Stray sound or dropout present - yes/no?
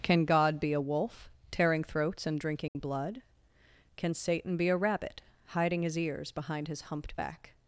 yes